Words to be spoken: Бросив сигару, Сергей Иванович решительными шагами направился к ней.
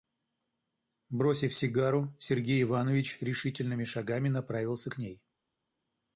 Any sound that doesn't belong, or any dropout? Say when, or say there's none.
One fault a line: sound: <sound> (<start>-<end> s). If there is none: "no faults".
no faults